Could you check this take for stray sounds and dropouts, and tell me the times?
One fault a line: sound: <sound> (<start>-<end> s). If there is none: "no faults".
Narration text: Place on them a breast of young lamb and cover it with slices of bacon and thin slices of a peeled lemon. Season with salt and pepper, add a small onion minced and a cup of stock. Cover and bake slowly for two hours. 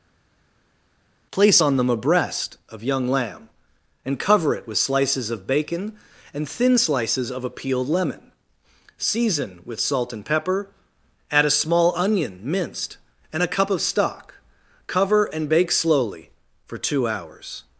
no faults